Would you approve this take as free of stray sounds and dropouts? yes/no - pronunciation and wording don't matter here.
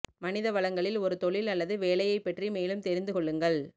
yes